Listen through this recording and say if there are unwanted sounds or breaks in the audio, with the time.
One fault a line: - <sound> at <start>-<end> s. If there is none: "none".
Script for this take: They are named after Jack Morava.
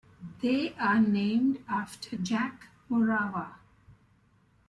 none